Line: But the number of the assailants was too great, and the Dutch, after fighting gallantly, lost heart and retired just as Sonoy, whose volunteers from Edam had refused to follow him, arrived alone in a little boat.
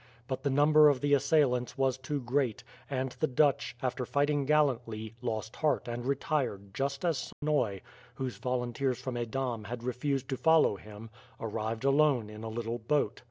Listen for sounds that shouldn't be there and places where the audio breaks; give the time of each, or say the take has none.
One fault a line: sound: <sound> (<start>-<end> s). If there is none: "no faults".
sound: dropout (7.3-7.4 s)